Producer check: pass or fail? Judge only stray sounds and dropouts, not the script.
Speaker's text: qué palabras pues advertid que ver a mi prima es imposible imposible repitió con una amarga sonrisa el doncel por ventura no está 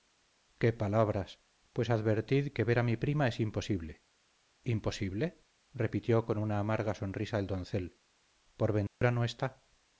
fail